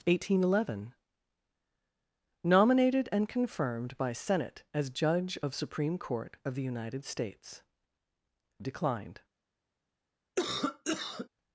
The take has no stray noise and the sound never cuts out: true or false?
false